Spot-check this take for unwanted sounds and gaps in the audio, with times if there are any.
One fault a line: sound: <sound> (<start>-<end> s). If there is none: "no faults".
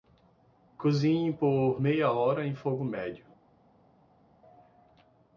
no faults